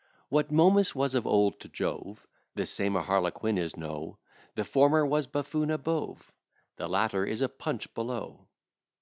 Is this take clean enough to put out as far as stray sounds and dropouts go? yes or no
yes